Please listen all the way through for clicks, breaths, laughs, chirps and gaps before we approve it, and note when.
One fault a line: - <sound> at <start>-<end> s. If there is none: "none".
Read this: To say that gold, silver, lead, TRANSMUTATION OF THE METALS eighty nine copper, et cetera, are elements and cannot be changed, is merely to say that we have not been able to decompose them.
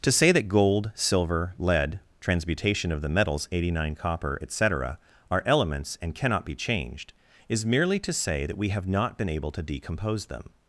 none